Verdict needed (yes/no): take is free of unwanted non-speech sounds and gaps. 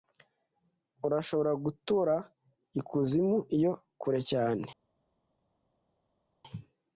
yes